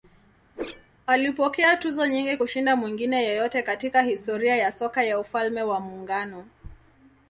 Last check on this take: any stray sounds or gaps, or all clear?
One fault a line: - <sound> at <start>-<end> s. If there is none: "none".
- whoosh at 0.5-0.9 s